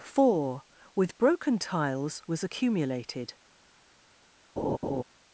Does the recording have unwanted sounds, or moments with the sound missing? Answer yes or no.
yes